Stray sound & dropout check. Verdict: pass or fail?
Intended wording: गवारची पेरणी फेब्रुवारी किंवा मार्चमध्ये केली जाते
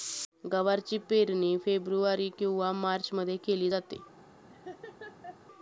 fail